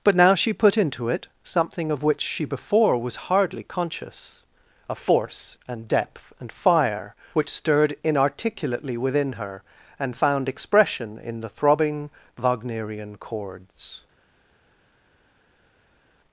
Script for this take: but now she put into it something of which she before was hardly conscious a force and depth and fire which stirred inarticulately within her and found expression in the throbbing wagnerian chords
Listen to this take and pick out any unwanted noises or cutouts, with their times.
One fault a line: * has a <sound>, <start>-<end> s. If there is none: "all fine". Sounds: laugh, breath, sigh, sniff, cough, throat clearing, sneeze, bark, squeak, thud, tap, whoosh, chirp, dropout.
all fine